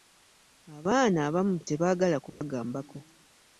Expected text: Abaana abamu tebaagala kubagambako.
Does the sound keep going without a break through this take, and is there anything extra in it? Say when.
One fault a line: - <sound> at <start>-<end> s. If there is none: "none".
- dropout at 2.3-2.4 s